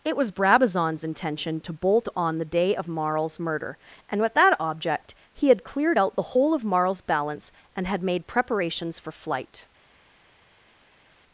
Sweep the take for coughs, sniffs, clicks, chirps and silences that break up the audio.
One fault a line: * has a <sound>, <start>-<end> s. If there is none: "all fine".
all fine